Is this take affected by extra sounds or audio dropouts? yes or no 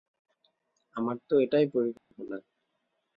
yes